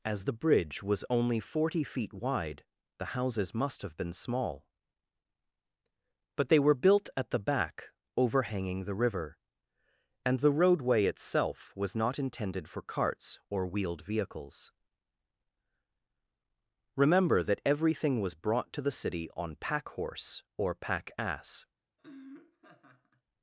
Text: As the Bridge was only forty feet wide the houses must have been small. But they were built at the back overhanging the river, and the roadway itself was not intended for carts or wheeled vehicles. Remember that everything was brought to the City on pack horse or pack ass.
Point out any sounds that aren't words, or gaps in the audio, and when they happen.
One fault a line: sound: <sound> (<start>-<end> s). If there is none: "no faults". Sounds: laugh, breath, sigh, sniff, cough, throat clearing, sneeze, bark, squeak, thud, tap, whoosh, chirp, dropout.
sound: laugh (22.0-23.2 s)